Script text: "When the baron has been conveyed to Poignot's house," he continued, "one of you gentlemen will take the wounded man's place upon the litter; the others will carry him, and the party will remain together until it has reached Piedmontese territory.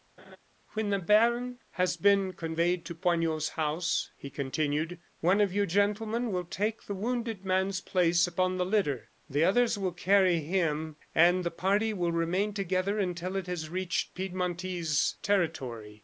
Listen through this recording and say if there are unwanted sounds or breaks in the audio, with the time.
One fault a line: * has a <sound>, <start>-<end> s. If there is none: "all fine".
* has a laugh, 0.2-0.4 s